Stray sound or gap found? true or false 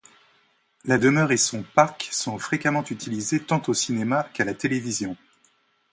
false